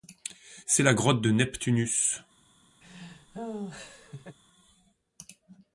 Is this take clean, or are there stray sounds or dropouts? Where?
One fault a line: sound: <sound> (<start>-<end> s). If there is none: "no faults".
sound: laugh (2.8-4.4 s)